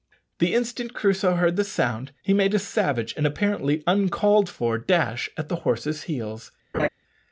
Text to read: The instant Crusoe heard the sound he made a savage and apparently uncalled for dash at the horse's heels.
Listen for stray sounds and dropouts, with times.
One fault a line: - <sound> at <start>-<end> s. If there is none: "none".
- laugh at 6.7-6.9 s